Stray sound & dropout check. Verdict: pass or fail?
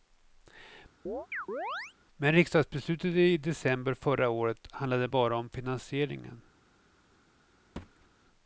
fail